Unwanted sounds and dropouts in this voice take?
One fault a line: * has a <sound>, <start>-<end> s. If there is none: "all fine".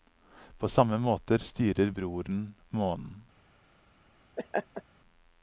* has a laugh, 4.4-4.8 s